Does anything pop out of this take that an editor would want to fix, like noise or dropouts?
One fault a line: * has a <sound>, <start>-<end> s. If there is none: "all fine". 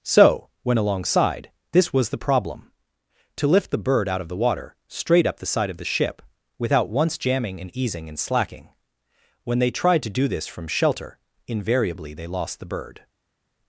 all fine